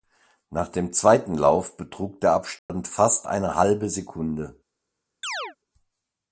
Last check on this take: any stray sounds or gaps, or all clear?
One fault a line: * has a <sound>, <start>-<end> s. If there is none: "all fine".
* has a dropout, 2.6-2.7 s
* has a chirp, 5.2-5.6 s